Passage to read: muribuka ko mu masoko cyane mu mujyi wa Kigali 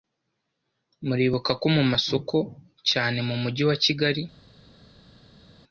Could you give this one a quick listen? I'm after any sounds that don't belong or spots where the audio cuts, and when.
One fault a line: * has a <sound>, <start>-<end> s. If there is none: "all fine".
all fine